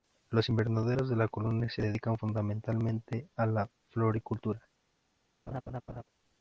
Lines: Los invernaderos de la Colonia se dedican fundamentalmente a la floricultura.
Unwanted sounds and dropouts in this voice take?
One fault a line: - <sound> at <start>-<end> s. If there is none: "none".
- laugh at 5.5-6.0 s